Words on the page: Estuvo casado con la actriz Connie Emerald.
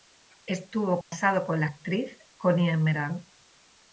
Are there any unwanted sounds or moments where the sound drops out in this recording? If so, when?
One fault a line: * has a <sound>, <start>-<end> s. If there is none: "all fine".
* has a dropout, 1.0-1.1 s